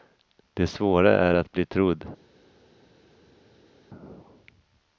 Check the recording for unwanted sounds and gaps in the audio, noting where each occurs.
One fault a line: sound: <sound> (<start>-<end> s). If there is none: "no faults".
no faults